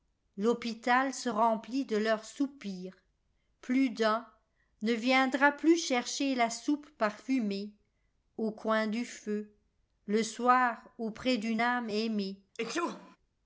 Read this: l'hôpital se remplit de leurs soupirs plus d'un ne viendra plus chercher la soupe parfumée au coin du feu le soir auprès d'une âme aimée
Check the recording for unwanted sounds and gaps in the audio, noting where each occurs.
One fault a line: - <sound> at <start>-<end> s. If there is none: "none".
- sneeze at 12.5-13.2 s